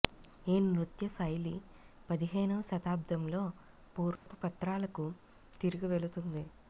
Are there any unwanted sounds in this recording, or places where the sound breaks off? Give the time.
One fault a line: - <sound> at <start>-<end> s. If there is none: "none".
- dropout at 4.2-4.3 s